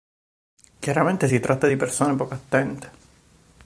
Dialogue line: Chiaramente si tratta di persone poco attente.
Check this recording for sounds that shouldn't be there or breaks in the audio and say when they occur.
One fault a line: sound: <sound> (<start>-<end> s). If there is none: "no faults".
no faults